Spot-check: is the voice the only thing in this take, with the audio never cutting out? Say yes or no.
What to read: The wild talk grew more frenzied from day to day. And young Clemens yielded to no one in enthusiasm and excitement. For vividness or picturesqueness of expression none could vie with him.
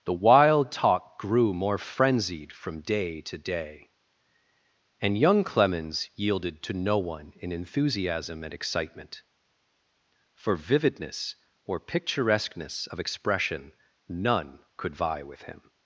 yes